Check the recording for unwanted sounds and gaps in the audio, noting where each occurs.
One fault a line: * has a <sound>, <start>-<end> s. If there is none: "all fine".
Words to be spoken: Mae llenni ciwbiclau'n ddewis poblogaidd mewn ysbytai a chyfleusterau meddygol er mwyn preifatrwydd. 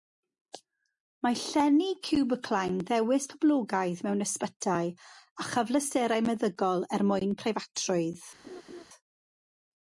* has a laugh, 8.4-8.8 s